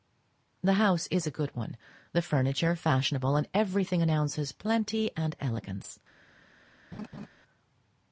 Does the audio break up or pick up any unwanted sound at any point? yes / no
yes